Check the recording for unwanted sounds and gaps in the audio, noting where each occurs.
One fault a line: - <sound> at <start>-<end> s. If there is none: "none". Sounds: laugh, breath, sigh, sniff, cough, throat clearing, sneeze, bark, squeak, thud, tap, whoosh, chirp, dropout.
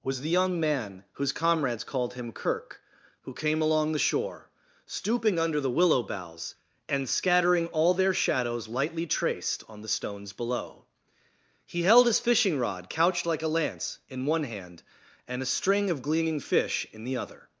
none